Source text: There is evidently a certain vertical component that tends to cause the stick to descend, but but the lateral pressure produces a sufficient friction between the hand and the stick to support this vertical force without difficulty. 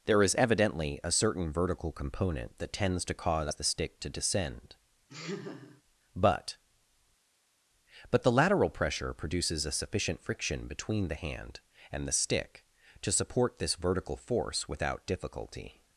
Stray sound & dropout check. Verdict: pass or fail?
fail